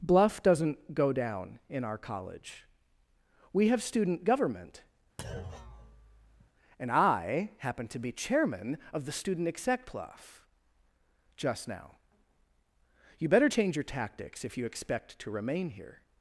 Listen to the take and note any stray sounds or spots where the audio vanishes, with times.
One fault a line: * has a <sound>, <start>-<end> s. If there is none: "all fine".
* has a thud, 5.2-6.5 s